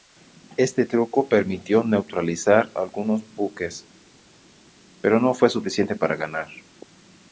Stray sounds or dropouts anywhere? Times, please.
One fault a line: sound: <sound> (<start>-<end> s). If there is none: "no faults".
no faults